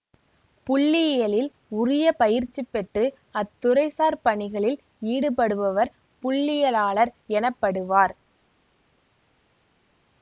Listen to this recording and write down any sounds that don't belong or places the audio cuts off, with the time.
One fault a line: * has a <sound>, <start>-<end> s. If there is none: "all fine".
all fine